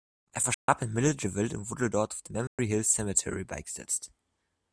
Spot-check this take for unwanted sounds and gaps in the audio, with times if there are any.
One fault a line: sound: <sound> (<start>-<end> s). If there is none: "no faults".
sound: dropout (0.5-0.7 s)
sound: dropout (2.5-2.6 s)